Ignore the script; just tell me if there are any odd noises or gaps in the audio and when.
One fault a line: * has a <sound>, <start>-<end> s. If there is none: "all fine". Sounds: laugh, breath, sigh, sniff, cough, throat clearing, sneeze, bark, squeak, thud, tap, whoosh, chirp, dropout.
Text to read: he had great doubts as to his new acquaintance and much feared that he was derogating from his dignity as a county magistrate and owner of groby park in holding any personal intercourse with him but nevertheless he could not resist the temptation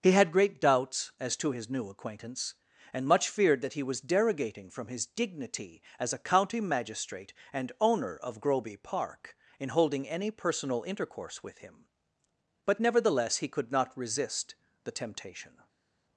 all fine